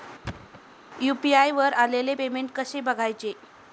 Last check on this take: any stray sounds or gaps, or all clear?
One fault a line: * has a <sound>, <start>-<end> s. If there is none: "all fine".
* has a thud, 0.2-0.6 s